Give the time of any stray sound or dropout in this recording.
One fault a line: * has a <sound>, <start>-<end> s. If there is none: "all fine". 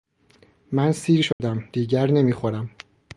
* has a dropout, 1.3-1.4 s